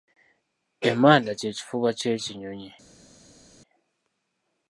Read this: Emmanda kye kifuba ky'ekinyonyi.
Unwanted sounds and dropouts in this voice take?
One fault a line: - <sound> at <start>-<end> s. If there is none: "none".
none